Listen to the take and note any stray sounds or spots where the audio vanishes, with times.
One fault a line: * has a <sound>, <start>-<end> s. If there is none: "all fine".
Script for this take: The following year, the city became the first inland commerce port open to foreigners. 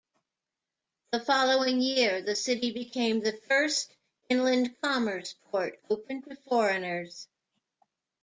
all fine